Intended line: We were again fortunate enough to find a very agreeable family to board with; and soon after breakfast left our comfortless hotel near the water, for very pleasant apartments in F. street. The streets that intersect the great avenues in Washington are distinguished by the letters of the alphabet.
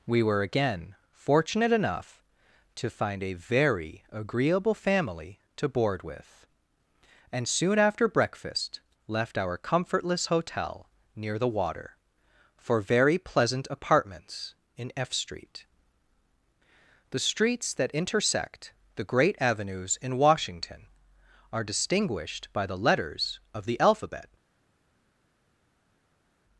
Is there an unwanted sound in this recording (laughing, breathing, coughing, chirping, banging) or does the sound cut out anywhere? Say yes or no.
no